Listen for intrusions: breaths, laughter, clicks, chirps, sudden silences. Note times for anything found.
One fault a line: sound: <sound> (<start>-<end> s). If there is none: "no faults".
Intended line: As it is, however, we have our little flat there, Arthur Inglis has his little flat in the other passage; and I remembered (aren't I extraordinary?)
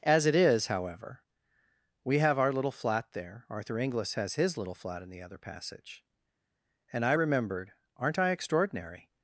no faults